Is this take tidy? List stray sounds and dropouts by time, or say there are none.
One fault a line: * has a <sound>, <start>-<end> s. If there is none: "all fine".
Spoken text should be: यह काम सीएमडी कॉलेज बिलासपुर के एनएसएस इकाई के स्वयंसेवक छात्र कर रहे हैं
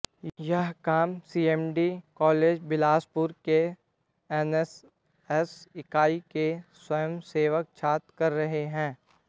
all fine